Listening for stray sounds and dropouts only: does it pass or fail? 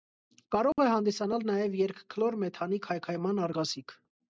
fail